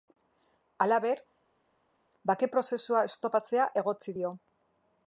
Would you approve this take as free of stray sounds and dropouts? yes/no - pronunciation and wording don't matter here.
yes